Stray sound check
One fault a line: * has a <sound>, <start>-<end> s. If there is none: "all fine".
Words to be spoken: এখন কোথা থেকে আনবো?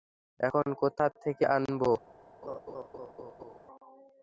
* has a laugh, 2.4-3.6 s